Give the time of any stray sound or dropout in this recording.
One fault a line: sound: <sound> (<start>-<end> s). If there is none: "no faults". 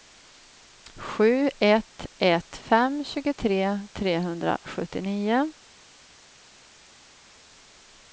no faults